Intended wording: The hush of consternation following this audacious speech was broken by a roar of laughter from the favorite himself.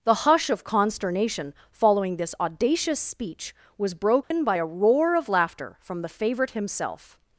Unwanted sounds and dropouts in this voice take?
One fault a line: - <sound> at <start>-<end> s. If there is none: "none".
- dropout at 4.2-4.3 s